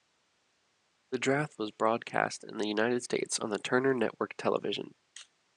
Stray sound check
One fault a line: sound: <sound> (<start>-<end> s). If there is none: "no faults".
no faults